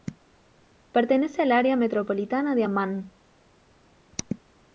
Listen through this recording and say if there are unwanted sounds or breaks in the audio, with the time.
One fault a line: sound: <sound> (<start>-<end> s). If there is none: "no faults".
no faults